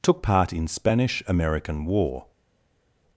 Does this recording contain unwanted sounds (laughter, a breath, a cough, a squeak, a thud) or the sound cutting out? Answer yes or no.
no